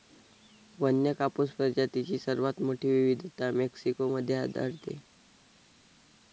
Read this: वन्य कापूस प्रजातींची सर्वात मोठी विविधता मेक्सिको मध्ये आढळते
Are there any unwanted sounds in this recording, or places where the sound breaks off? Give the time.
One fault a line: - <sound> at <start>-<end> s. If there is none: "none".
none